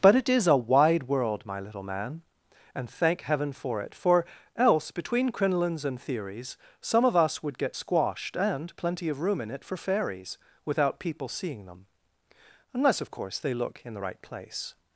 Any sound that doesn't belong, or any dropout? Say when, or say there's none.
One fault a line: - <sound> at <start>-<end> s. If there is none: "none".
none